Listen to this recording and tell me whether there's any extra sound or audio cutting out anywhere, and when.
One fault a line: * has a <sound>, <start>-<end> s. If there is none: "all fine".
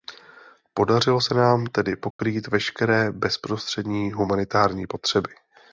* has a dropout, 2.1-2.2 s